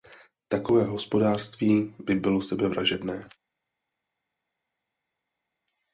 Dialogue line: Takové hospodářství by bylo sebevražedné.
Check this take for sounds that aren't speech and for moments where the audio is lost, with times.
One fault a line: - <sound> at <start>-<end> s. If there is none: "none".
none